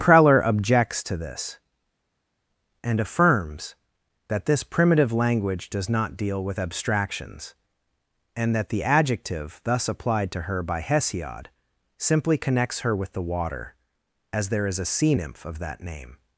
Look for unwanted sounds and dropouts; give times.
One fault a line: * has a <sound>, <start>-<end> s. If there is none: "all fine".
all fine